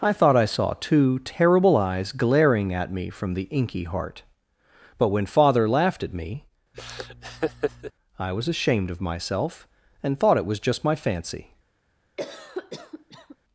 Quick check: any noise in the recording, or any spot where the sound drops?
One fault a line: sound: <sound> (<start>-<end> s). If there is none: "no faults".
sound: laugh (6.7-7.9 s)
sound: cough (12.2-13.4 s)